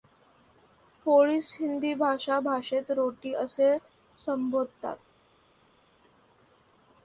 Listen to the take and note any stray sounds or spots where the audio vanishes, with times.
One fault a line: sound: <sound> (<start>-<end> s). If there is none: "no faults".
no faults